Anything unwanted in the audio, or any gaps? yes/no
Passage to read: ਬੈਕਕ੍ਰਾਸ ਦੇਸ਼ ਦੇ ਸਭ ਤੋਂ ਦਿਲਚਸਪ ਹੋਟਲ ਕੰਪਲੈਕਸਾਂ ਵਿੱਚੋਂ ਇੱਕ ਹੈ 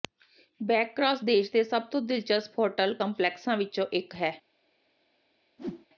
yes